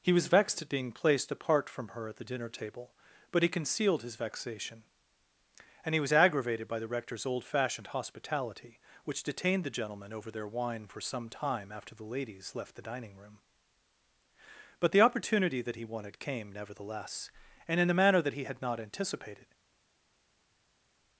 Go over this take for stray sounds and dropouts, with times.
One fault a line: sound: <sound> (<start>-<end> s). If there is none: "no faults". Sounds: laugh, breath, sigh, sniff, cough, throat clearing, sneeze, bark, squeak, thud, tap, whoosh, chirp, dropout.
no faults